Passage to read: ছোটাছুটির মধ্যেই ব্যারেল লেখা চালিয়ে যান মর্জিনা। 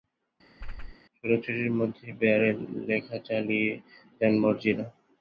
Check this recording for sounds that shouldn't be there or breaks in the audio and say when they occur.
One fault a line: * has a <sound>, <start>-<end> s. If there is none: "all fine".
* has a whoosh, 0.6-1.0 s